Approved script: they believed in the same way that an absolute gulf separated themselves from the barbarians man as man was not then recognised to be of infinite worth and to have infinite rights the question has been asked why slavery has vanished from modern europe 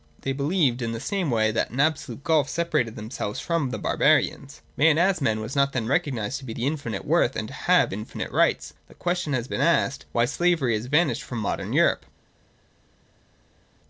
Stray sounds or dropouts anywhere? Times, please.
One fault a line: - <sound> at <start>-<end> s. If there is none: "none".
none